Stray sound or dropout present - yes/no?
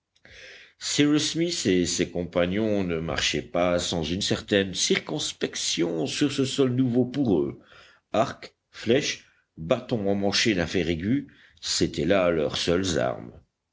no